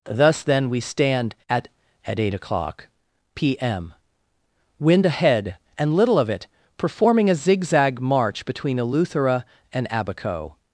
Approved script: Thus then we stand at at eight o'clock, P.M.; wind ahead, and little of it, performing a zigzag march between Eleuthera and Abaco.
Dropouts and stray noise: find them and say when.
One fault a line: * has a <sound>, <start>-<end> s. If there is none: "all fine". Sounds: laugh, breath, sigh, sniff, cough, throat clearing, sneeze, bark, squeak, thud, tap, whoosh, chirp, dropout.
all fine